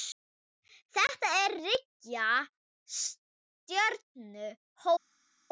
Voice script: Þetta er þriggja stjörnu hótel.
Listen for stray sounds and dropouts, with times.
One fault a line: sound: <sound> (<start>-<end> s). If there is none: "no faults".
no faults